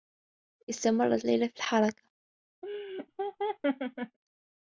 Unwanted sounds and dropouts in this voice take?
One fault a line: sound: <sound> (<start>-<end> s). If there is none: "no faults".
sound: laugh (2.6-4.2 s)